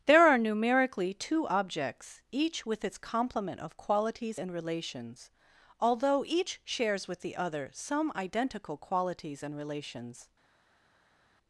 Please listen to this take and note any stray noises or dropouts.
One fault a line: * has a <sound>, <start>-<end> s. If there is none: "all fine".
all fine